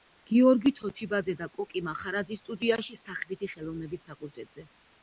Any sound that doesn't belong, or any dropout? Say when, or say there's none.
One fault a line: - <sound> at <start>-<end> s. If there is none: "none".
none